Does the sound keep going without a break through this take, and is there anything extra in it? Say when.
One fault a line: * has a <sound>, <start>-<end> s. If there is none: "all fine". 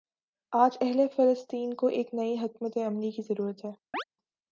* has a chirp, 3.9-4.0 s